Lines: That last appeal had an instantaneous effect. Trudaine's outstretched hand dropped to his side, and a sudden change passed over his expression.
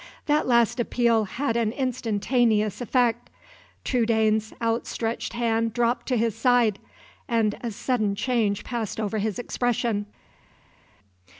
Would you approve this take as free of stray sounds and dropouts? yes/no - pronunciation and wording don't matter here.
yes